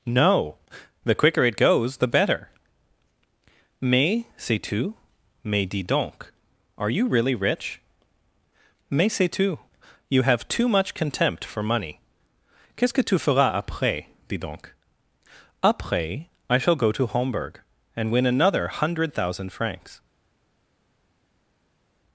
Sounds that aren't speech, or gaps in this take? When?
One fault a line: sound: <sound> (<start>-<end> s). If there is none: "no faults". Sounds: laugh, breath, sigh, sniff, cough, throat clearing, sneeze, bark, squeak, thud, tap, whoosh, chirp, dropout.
no faults